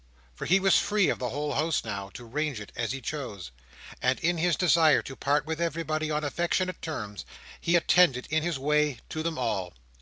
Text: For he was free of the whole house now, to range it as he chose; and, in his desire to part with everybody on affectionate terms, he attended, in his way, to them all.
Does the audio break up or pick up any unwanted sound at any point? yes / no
no